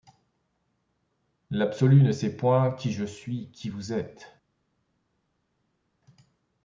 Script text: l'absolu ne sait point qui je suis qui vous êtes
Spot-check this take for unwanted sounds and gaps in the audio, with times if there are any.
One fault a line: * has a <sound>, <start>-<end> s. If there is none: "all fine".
all fine